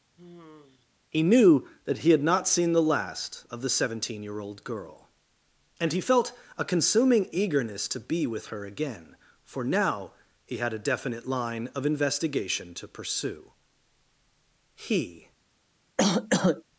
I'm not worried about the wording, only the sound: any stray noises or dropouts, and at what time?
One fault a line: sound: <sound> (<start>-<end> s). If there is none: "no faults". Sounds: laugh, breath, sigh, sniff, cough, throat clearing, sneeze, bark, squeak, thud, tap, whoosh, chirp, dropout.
sound: sigh (0.2-0.9 s)
sound: cough (16.0-16.6 s)